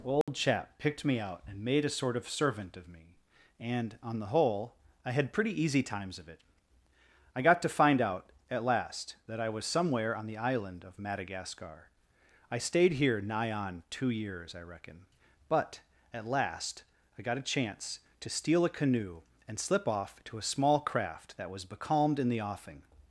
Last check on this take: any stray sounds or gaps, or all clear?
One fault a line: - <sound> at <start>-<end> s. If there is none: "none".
- dropout at 0.2-0.3 s